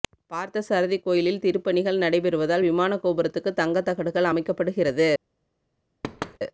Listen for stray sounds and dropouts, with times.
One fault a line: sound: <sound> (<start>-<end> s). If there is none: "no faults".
sound: thud (6.0-6.4 s)